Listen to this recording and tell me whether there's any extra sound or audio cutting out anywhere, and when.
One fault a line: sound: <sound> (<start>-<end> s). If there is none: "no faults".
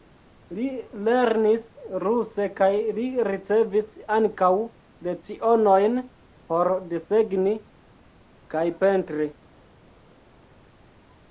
no faults